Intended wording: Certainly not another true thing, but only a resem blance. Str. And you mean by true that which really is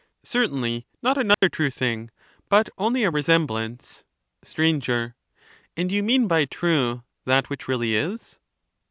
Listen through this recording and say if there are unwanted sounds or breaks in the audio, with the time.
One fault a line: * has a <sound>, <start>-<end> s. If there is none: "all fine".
* has a dropout, 1.3-1.4 s